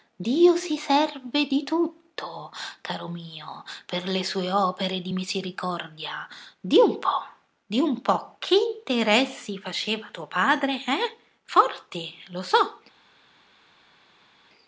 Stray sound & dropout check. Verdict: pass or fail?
pass